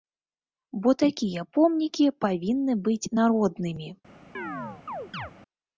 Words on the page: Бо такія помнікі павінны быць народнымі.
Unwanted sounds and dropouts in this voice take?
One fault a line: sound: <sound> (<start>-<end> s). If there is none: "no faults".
sound: chirp (4.3-5.3 s)